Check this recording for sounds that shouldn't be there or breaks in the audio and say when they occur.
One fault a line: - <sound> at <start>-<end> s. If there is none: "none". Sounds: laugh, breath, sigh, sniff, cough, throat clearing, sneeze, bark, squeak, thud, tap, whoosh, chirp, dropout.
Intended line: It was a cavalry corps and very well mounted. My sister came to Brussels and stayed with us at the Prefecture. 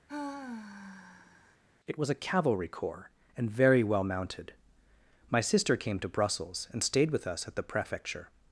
- sigh at 0.1-1.6 s